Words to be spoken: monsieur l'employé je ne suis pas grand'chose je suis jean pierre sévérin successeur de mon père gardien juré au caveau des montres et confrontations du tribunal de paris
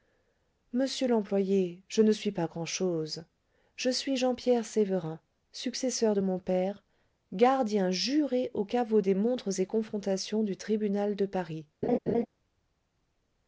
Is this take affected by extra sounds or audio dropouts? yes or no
yes